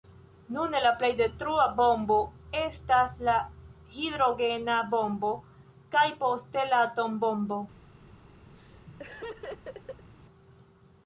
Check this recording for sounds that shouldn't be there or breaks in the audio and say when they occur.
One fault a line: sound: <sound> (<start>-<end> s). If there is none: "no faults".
sound: laugh (8.5-10.1 s)